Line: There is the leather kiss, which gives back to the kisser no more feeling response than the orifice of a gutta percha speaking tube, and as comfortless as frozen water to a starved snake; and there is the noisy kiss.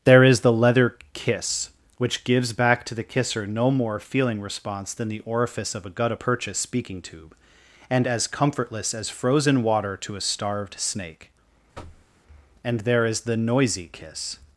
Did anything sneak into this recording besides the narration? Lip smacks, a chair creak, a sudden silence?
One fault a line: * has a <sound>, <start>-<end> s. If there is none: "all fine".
* has a thud, 11.7-12.1 s